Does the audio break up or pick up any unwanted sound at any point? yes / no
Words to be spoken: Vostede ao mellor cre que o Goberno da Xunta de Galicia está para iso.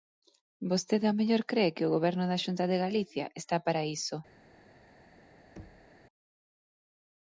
yes